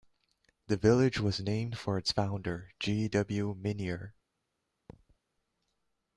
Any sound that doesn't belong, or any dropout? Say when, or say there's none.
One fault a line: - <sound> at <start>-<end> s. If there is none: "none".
- thud at 4.9-5.2 s